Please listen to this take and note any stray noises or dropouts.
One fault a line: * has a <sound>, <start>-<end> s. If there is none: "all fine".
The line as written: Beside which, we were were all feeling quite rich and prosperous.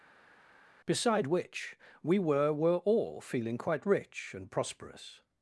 all fine